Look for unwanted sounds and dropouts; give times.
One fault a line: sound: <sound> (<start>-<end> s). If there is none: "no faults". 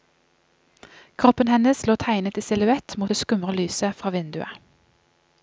no faults